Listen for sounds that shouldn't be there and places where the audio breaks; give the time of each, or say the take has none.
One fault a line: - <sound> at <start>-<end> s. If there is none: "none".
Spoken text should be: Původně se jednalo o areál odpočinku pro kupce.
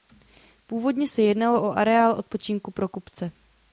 none